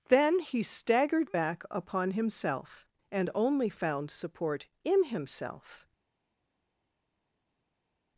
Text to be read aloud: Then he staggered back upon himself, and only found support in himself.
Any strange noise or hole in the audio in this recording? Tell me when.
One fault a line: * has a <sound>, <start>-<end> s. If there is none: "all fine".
all fine